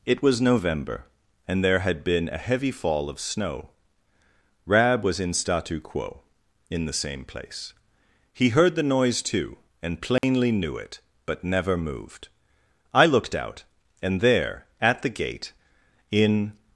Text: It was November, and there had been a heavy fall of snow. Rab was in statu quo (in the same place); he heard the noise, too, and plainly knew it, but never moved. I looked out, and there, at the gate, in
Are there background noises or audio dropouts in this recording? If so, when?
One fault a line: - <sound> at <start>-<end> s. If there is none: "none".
- dropout at 10.2-10.2 s